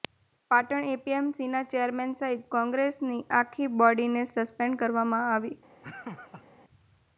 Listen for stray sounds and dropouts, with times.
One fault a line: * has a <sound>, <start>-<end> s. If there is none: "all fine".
* has a laugh, 5.8-6.4 s